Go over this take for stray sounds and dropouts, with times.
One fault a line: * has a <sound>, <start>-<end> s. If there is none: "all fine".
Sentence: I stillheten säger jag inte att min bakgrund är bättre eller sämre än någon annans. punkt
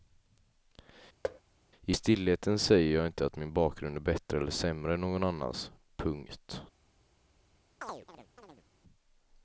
* has a thud, 1.2-1.4 s
* has a chirp, 7.8-8.6 s